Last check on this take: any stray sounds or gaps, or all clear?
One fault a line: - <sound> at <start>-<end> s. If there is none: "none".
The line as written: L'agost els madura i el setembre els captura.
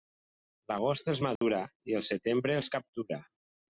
- dropout at 1.4-1.4 s